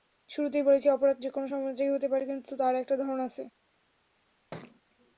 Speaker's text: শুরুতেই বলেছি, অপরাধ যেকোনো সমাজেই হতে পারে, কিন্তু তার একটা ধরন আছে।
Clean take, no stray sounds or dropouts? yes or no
no